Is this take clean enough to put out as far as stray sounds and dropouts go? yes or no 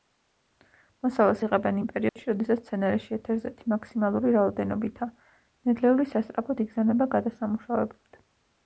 no